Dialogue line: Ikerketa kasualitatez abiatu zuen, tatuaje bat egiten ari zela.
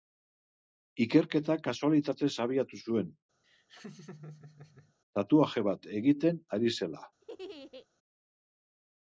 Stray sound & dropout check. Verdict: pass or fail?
fail